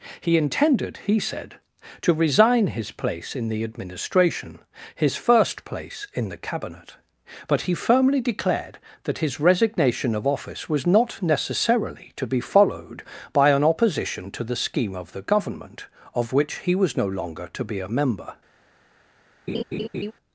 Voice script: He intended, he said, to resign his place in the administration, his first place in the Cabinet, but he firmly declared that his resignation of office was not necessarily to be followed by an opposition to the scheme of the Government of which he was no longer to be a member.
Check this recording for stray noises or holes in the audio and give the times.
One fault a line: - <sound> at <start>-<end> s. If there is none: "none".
- laugh at 19.5-20.1 s